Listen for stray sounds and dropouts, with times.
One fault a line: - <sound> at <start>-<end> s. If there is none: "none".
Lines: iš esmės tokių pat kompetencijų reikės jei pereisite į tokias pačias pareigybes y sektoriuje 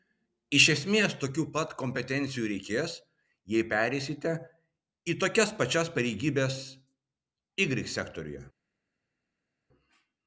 none